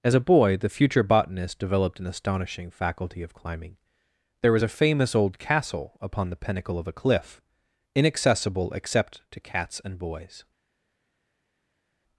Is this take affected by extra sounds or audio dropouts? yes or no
no